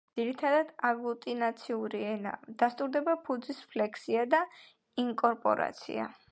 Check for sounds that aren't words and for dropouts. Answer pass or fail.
pass